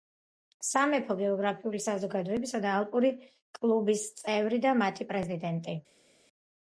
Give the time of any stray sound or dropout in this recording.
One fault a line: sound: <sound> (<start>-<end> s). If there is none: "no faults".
no faults